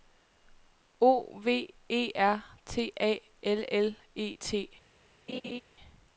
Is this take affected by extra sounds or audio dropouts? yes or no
yes